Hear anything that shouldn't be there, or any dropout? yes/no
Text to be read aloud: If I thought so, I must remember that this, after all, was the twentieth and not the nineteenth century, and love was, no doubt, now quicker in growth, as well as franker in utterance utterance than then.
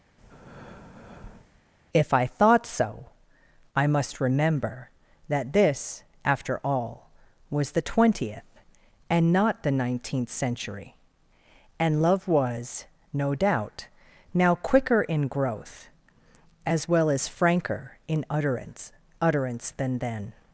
yes